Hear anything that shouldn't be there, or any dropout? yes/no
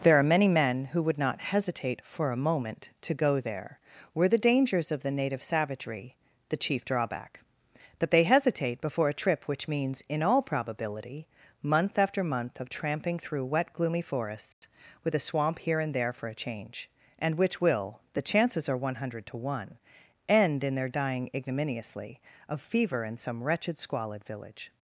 yes